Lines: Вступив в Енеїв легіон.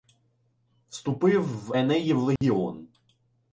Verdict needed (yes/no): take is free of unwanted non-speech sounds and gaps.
no